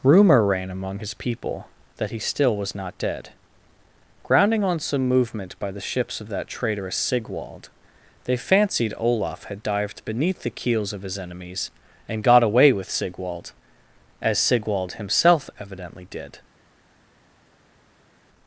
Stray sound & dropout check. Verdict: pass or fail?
pass